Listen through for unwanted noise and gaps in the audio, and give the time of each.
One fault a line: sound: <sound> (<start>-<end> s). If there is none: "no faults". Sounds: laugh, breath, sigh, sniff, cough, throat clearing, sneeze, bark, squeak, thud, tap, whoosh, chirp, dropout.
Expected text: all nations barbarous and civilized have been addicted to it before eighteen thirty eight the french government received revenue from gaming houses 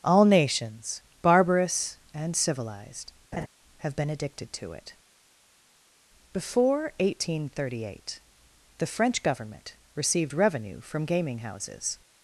sound: laugh (3.3-3.5 s)